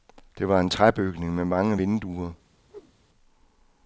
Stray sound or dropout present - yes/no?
yes